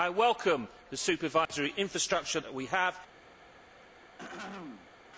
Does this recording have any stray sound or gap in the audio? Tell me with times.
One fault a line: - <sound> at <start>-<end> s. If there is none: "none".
- dropout at 1.5-1.5 s
- throat clearing at 3.8-5.0 s